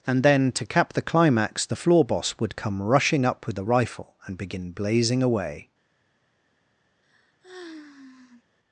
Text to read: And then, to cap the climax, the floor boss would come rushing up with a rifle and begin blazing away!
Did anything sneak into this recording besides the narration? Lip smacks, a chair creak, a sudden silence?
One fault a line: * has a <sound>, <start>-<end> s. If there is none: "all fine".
* has a sigh, 7.0-8.4 s